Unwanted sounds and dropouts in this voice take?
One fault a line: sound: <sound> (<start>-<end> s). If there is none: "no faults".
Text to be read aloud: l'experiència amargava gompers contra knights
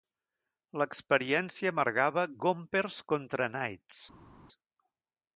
no faults